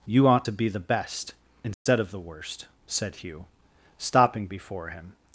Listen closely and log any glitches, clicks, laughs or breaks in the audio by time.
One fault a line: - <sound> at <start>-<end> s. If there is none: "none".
- dropout at 1.7-1.9 s